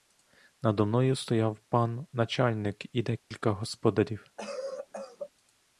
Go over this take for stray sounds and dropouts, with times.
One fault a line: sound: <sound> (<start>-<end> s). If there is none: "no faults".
sound: dropout (3.2-3.3 s)
sound: cough (4.4-5.3 s)